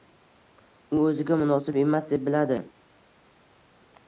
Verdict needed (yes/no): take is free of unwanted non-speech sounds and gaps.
yes